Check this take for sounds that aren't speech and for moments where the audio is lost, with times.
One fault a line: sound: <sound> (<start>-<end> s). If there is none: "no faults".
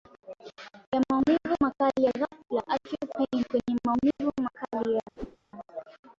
sound: dropout (4.1-4.2 s)
sound: whoosh (5.2-5.4 s)